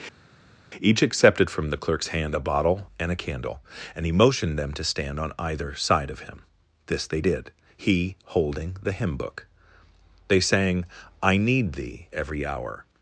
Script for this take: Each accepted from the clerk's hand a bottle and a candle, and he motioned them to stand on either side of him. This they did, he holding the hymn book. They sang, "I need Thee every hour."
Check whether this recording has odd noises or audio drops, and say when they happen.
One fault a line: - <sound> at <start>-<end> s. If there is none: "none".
none